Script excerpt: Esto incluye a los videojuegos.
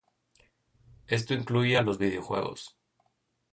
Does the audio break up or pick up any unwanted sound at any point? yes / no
no